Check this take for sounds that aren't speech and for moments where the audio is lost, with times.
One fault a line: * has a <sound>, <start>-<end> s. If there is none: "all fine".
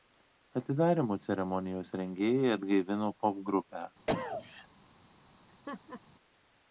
* has a cough, 4.1-4.7 s
* has a laugh, 5.5-6.0 s